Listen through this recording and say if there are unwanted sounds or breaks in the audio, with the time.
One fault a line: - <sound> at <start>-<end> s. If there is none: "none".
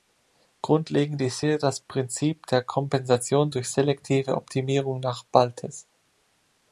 none